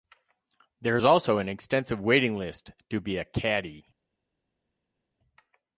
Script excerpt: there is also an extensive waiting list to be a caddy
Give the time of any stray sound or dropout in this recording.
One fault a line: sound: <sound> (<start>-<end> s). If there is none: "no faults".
no faults